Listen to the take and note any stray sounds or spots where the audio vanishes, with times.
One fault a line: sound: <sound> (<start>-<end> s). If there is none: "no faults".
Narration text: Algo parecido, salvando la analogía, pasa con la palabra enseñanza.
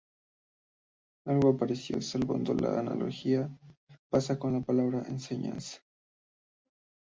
no faults